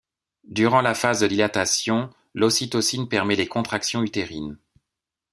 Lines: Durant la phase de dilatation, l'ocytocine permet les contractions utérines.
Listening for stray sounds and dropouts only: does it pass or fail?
pass